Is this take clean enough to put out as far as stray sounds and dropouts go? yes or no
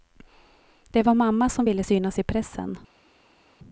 yes